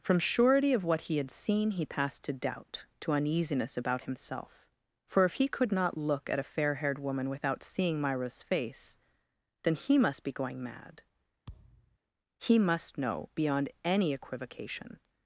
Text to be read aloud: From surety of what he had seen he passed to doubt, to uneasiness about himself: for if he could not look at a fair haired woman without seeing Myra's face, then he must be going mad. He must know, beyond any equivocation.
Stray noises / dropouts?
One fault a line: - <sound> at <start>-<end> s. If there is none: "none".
- thud at 11.5-12.0 s